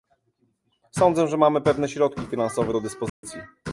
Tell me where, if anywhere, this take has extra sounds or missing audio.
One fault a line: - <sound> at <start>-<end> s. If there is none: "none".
- dropout at 3.1-3.2 s